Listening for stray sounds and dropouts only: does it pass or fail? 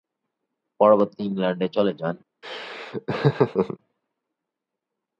fail